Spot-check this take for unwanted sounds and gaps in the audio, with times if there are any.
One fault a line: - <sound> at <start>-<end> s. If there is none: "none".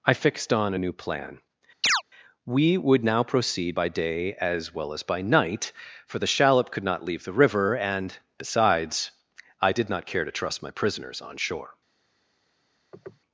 - chirp at 1.8-2.0 s
- sniff at 12.9-13.2 s